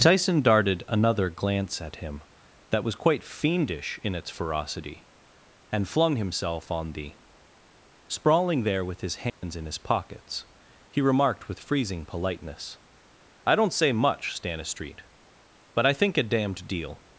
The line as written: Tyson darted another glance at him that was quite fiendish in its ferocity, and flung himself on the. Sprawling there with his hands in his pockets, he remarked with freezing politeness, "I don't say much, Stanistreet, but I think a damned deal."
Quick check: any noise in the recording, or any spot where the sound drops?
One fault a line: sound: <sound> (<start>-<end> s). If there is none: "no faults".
sound: dropout (9.3-9.4 s)